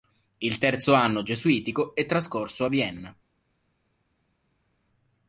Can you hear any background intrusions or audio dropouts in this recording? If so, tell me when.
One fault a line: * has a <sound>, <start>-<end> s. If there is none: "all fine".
all fine